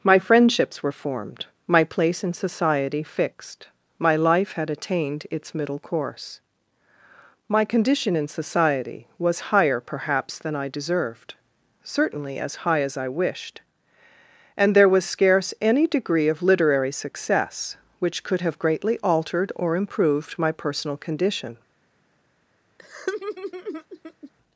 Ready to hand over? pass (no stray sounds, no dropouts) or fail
fail